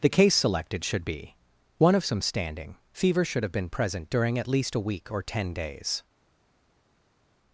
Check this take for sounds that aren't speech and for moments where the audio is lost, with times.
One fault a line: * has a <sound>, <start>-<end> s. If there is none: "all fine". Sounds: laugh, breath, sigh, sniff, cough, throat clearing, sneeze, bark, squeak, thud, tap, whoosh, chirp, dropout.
all fine